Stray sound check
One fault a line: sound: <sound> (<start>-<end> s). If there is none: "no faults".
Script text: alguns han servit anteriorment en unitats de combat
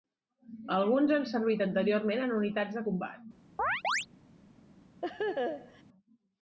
sound: chirp (3.6-4.1 s)
sound: laugh (5.0-5.8 s)